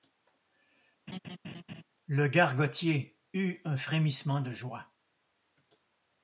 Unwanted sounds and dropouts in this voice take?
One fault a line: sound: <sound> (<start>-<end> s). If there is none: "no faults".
sound: laugh (1.1-1.8 s)